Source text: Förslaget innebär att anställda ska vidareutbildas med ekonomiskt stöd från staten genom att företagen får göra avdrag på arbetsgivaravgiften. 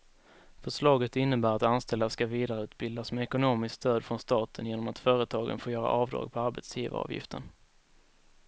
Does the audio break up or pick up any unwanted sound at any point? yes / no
no